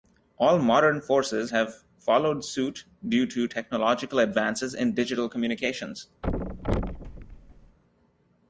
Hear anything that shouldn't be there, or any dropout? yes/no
yes